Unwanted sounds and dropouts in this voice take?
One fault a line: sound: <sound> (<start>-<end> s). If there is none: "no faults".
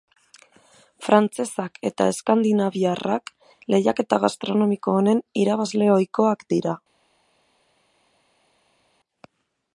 no faults